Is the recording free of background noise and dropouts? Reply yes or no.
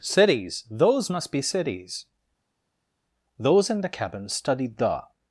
yes